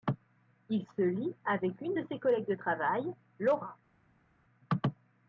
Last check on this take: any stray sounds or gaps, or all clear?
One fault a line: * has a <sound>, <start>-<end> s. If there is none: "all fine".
all fine